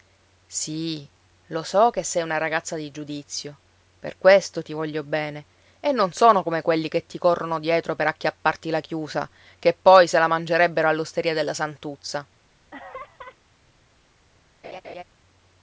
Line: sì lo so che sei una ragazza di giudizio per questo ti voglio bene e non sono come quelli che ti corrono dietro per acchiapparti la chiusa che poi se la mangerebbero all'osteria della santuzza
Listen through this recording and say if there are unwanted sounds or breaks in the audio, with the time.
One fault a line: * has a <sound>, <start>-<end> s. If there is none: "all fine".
* has a laugh, 12.7-13.4 s
* has a laugh, 14.6-15.0 s